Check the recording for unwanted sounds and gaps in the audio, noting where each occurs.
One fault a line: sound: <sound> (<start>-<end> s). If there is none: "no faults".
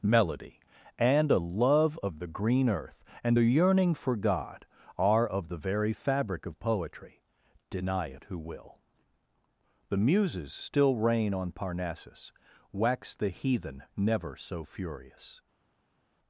no faults